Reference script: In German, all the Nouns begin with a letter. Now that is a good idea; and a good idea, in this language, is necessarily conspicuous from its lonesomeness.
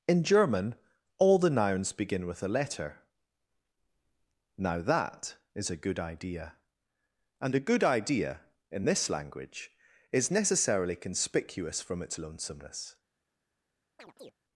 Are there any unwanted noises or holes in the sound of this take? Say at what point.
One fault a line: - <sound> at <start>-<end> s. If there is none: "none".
- chirp at 14.0-14.3 s